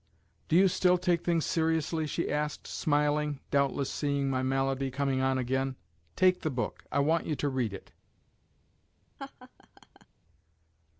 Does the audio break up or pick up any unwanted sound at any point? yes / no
yes